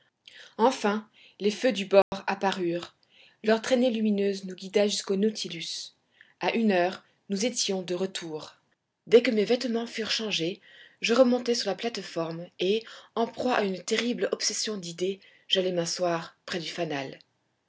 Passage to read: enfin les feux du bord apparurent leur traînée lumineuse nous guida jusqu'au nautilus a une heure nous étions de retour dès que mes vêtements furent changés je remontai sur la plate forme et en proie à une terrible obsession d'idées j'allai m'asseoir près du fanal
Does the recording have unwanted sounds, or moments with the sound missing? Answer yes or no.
yes